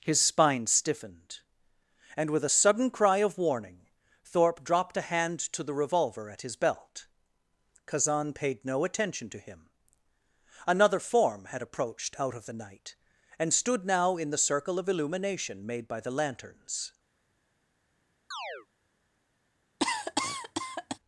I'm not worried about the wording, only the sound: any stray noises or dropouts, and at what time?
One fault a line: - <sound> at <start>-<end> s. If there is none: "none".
- chirp at 18.3-18.7 s
- cough at 19.8-21.0 s